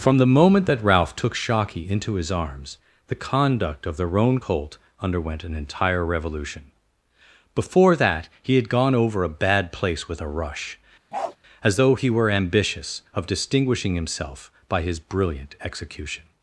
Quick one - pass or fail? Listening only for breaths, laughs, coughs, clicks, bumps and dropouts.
fail